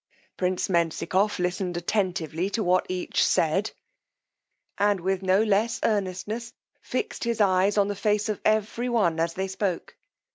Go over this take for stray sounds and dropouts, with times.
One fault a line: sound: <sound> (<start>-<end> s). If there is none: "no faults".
no faults